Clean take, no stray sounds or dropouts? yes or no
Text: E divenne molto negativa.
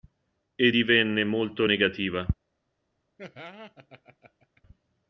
no